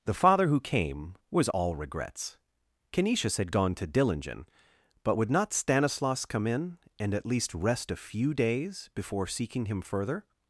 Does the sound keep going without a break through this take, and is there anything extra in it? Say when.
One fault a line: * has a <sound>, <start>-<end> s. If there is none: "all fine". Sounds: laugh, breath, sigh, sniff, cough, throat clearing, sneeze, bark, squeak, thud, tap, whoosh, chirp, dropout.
all fine